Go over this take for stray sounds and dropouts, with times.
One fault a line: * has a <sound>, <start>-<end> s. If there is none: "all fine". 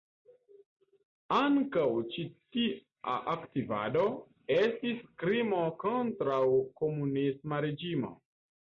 all fine